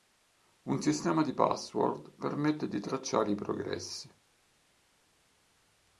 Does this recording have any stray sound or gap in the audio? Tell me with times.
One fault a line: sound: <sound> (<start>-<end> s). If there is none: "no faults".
no faults